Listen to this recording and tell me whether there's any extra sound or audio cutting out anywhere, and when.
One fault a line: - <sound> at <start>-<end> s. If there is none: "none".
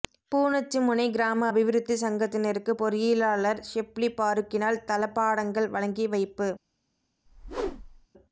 - whoosh at 7.3-8.1 s